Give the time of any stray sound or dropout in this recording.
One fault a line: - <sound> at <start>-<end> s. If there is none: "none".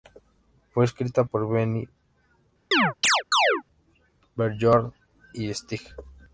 - chirp at 2.7-3.6 s